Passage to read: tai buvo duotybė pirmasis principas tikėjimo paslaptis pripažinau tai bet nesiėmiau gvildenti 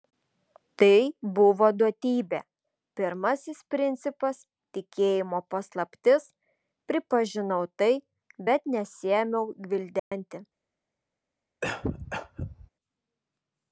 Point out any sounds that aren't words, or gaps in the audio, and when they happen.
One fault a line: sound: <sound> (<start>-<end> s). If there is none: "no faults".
sound: dropout (10.0-10.1 s)
sound: cough (11.6-12.7 s)